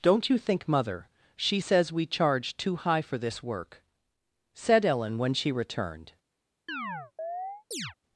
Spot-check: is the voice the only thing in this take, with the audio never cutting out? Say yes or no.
no